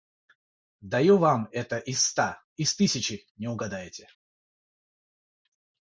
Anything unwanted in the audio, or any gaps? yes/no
no